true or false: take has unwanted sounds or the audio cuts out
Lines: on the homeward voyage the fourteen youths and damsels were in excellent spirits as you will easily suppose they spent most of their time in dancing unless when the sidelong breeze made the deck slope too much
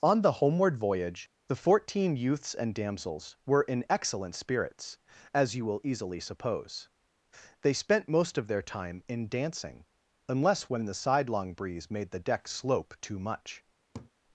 true